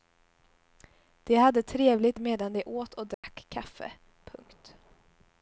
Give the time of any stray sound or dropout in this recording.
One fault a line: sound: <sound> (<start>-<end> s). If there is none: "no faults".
sound: dropout (3.1-3.2 s)